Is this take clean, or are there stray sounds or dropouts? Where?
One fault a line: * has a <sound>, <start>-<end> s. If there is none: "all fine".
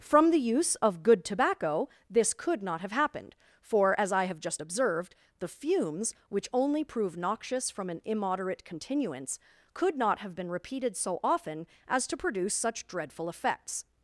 all fine